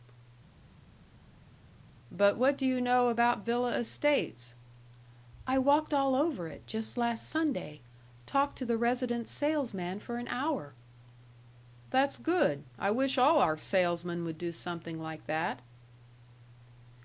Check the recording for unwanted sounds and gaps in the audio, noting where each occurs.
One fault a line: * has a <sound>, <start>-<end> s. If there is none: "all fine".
all fine